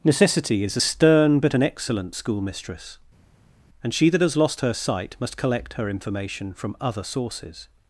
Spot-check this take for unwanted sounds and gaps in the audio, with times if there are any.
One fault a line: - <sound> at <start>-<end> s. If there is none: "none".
none